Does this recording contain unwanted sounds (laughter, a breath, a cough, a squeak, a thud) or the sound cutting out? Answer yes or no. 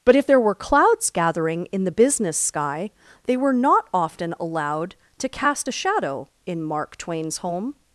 no